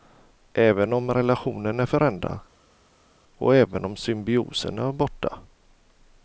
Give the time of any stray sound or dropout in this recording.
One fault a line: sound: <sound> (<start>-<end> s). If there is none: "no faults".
no faults